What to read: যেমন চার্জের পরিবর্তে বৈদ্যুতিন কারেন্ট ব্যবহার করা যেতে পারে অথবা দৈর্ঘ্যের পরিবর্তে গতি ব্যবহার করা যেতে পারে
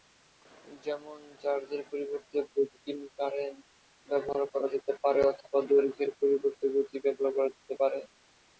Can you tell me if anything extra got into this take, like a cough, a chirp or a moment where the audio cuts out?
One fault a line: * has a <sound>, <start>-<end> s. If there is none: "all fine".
all fine